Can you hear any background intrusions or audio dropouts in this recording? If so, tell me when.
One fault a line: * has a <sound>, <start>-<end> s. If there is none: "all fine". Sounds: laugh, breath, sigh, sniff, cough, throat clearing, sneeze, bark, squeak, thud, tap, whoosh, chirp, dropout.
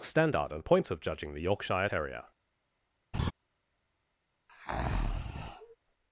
* has a laugh, 3.1-3.3 s
* has a breath, 4.5-5.8 s